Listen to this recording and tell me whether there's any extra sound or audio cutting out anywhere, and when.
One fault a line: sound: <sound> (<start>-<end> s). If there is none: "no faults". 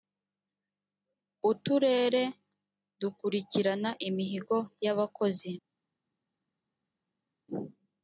no faults